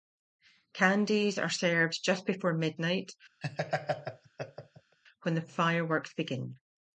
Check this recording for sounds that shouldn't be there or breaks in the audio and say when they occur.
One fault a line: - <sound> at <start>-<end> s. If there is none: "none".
- laugh at 3.4-5.0 s